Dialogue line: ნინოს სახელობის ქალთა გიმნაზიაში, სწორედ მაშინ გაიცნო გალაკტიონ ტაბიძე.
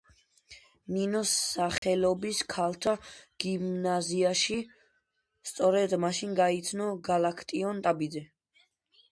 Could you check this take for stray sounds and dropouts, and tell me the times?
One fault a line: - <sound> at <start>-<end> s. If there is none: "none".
- dropout at 1.8-1.8 s